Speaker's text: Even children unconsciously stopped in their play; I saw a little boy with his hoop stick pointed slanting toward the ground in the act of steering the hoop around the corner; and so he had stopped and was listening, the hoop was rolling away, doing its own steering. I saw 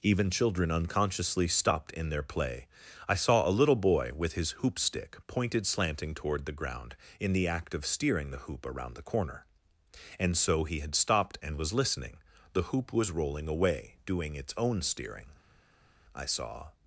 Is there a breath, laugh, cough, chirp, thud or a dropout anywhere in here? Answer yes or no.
no